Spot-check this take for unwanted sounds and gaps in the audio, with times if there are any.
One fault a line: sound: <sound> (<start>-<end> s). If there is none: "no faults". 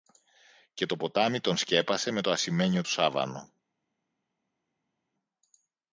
no faults